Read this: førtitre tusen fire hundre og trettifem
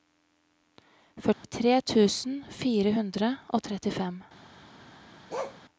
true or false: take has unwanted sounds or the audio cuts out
true